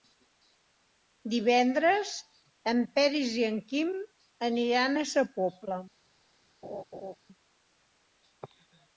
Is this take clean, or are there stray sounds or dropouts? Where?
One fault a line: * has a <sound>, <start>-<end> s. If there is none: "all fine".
* has a laugh, 6.6-7.2 s